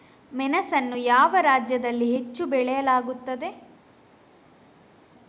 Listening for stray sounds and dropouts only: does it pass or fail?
pass